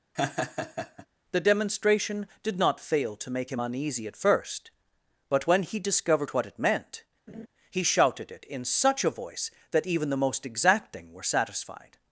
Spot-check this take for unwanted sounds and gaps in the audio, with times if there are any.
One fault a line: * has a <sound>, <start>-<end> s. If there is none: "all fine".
* has a laugh, 0.1-1.1 s
* has a laugh, 7.3-7.5 s